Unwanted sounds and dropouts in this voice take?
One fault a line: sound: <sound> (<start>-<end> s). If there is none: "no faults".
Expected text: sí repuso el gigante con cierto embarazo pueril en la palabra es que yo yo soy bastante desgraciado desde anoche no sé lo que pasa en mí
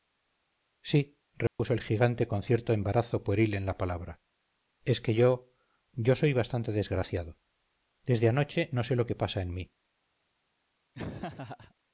sound: dropout (1.5-1.6 s)
sound: laugh (10.9-11.7 s)